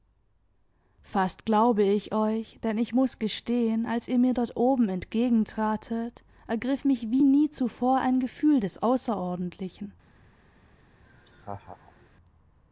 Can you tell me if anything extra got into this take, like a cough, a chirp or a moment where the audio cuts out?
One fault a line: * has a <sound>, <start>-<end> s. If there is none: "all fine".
* has a laugh, 11.0-12.1 s